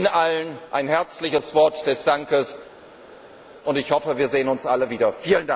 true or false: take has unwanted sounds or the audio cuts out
false